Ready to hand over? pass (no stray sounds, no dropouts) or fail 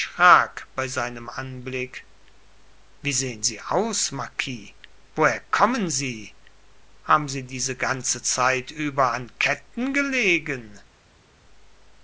pass